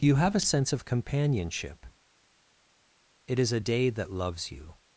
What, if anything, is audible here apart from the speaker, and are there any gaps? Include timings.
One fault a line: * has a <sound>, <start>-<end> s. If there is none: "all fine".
all fine